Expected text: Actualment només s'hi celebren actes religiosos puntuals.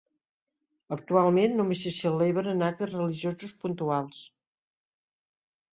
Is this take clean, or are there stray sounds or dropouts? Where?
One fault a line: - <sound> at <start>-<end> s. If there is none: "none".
none